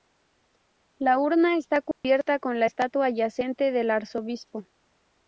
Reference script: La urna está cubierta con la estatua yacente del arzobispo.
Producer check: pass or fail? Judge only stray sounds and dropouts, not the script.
fail